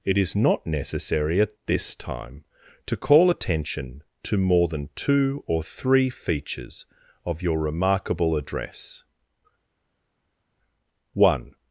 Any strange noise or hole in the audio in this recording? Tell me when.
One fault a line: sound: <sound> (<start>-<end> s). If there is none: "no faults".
no faults